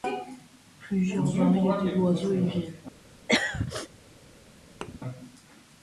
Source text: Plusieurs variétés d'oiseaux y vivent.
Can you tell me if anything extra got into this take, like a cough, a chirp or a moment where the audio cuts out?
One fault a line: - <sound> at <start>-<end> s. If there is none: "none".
- throat clearing at 3.3-3.9 s
- thud at 4.8-5.0 s